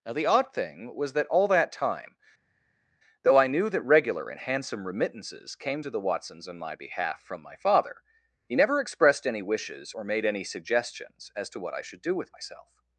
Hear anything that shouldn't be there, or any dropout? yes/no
no